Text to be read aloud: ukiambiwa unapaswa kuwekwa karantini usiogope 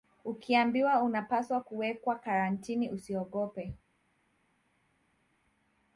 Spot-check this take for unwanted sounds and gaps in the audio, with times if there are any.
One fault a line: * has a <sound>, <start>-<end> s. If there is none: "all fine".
all fine